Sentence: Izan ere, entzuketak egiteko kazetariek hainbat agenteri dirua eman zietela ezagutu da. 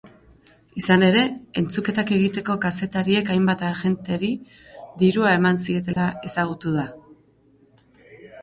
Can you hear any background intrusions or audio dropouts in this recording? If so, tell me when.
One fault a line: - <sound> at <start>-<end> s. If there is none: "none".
- dropout at 5.9-6.0 s